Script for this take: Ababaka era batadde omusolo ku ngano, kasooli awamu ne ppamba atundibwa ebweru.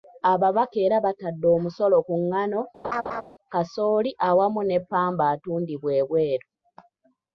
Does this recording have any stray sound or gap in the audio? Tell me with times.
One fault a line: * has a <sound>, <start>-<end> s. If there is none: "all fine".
* has a laugh, 2.8-3.2 s